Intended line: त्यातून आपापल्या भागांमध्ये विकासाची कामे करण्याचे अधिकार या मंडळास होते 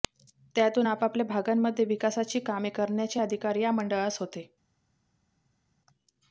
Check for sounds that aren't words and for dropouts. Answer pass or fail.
pass